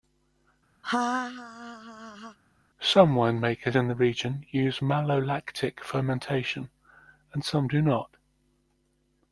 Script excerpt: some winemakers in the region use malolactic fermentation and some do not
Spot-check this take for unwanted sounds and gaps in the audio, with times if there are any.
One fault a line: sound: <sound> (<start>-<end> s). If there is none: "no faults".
sound: laugh (0.8-2.4 s)